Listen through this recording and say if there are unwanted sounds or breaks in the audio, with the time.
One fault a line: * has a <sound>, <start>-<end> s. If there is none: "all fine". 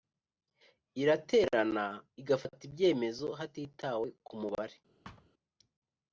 * has a thud, 5.0-5.3 s